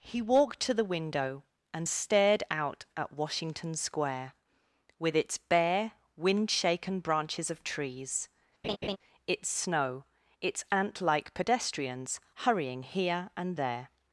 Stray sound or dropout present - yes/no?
yes